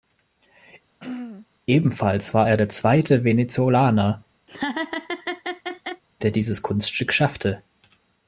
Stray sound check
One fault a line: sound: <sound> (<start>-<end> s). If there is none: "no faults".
sound: throat clearing (1.0-1.5 s)
sound: laugh (4.5-6.0 s)